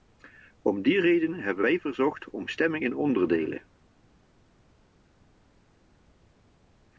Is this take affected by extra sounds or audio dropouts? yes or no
no